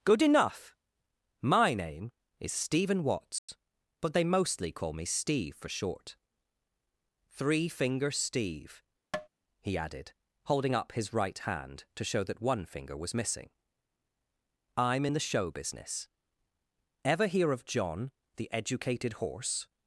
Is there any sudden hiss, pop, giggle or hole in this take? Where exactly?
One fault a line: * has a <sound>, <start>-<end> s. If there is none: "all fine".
* has a dropout, 3.4-3.5 s
* has a tap, 9.1-9.3 s